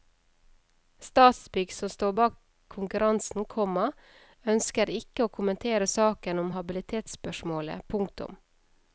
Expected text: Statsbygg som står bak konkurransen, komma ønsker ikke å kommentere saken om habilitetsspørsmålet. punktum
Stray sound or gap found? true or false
false